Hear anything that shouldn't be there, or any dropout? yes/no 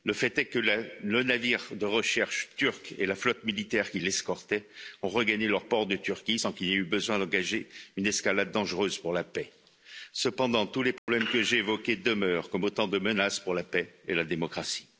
yes